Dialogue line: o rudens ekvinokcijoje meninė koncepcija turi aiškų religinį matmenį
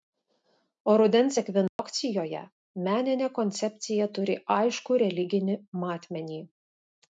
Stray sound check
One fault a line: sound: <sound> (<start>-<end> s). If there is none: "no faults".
sound: dropout (1.7-1.8 s)